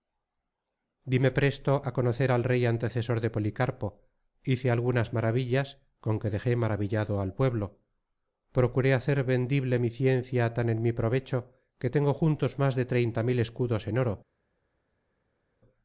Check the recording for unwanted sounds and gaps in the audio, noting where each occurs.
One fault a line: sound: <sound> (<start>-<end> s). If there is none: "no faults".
no faults